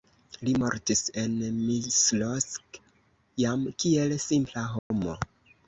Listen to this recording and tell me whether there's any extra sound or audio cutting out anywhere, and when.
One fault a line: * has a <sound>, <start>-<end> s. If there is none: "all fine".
* has a dropout, 4.8-4.9 s